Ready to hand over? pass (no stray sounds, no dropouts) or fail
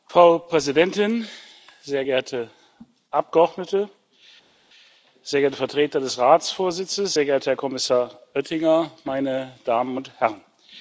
pass